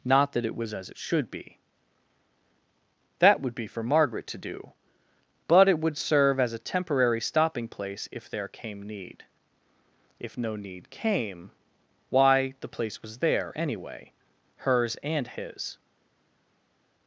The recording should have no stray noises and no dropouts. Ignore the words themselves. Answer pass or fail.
pass